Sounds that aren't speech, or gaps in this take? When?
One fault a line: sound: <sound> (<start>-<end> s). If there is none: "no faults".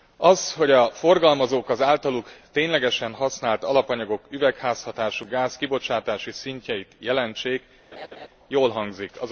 sound: laugh (7.9-8.3 s)